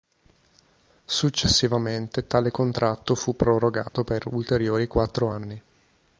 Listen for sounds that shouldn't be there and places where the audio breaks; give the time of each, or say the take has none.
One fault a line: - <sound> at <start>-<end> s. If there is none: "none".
- dropout at 3.9-3.9 s